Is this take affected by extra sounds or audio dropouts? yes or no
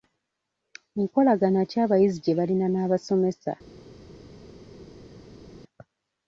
no